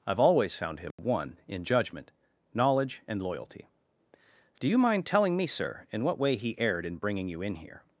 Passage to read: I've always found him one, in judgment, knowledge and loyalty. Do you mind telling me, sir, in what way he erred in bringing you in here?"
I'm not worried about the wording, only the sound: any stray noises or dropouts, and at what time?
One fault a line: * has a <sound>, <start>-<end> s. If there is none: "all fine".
* has a dropout, 0.9-1.0 s